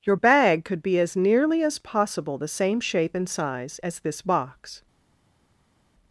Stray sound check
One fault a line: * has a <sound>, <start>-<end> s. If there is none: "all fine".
all fine